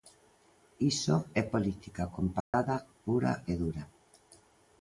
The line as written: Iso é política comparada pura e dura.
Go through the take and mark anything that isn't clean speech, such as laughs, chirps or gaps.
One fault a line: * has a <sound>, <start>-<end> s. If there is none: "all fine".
* has a dropout, 2.4-2.5 s